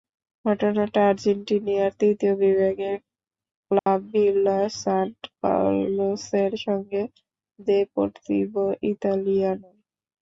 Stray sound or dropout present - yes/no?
yes